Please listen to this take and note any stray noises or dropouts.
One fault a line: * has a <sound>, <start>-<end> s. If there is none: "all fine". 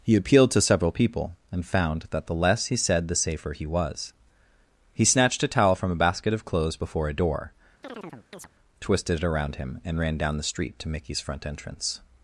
* has a chirp, 7.8-8.5 s